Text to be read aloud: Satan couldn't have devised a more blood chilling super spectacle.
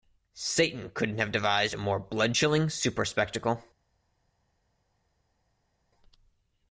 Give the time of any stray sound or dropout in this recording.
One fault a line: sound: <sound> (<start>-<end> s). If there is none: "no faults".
no faults